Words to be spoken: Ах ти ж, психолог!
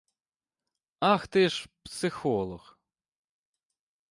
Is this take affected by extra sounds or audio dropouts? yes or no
no